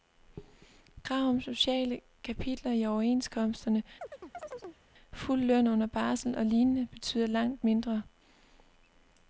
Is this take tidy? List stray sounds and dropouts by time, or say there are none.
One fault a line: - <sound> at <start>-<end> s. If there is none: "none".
- chirp at 4.0-4.8 s